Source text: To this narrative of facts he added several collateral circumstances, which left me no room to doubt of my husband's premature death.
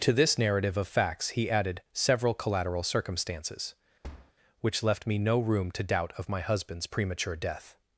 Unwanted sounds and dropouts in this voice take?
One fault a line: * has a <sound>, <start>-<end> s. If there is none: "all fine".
* has a thud, 4.0-4.3 s